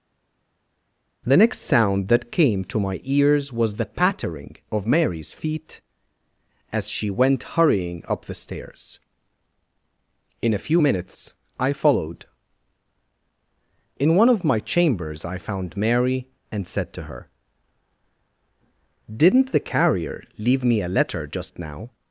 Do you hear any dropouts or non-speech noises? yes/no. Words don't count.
no